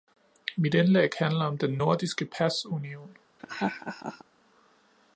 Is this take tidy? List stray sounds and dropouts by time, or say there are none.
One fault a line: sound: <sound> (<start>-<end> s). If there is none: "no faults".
sound: laugh (3.4-4.2 s)